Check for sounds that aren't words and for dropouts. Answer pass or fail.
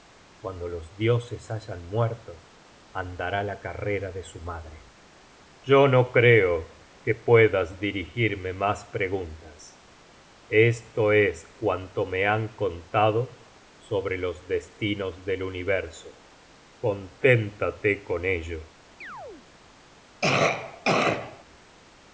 fail